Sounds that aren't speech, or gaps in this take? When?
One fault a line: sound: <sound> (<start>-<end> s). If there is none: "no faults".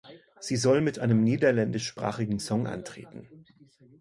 no faults